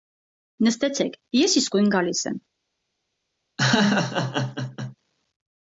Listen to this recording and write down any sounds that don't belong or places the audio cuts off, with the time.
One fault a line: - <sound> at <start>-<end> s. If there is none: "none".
- laugh at 3.6-5.0 s